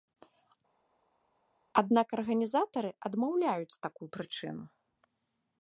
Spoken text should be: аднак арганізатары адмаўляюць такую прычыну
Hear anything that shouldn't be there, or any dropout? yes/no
no